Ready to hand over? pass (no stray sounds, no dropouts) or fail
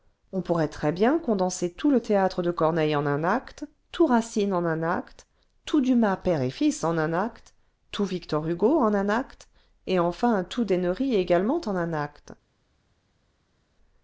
pass